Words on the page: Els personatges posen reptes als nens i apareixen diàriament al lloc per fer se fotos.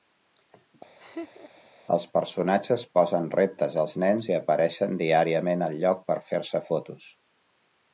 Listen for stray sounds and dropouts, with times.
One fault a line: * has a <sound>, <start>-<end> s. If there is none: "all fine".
* has a laugh, 1.0-1.7 s